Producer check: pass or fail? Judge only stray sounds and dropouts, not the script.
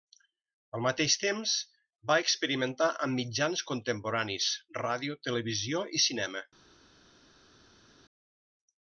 pass